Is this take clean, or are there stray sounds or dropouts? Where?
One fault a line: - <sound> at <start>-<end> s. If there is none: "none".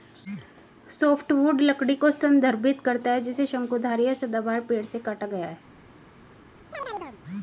- chirp at 6.7-7.2 s